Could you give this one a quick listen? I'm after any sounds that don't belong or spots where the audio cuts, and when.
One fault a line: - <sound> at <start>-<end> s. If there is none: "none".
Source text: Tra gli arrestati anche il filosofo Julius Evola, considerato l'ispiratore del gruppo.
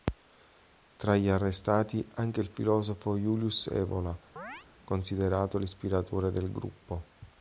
- chirp at 4.4-4.7 s